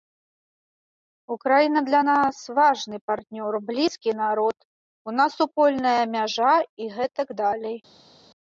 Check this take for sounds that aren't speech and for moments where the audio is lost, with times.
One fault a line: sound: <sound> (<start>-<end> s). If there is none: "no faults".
no faults